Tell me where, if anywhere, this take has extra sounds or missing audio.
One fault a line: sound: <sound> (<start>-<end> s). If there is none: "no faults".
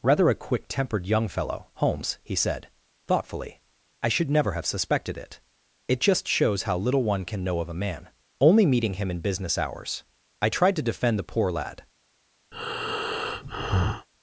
sound: breath (12.5-14.1 s)